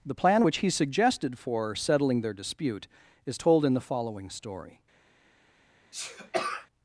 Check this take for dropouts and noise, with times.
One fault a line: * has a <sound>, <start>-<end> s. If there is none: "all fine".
* has a sneeze, 5.9-6.7 s